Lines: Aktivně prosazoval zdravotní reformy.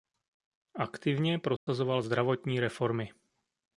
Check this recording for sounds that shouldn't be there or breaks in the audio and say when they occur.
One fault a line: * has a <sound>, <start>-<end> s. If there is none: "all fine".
* has a dropout, 1.6-1.7 s